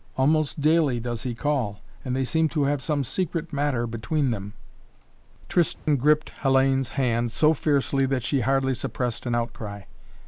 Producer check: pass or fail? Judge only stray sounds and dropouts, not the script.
fail